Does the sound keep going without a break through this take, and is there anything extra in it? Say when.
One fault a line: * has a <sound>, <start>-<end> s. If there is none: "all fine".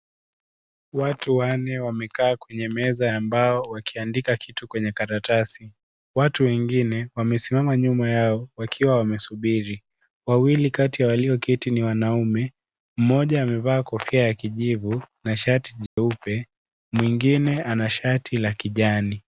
* has a dropout, 15.9-16.0 s